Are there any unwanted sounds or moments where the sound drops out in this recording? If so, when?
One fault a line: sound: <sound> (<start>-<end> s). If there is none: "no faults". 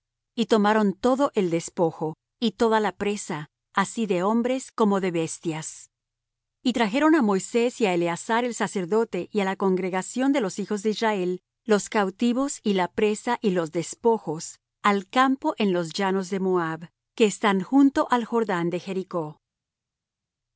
no faults